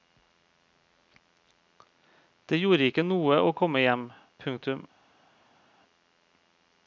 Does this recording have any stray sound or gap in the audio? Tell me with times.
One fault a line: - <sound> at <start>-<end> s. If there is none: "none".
none